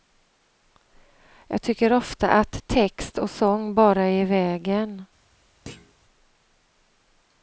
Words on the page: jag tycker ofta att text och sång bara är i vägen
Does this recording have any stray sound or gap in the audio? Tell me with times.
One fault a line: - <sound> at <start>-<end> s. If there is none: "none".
- thud at 5.7-5.9 s